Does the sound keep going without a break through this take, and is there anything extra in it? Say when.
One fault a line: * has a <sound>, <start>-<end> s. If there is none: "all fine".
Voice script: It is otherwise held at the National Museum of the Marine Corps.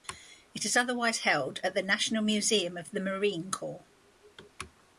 all fine